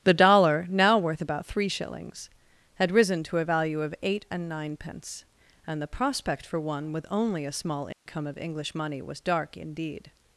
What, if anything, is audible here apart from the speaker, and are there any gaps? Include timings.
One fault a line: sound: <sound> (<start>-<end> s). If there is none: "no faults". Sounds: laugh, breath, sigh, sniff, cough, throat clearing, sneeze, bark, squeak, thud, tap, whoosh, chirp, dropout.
sound: dropout (7.9-8.1 s)